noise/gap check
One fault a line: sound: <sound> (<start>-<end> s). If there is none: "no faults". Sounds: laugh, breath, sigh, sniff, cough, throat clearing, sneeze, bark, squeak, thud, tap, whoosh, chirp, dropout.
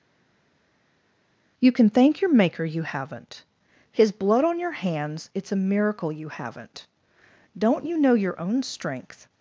no faults